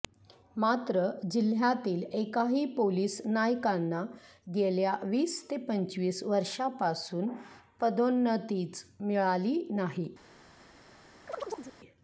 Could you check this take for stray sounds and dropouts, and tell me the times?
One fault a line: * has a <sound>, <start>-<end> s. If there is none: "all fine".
* has a chirp, 11.3-11.8 s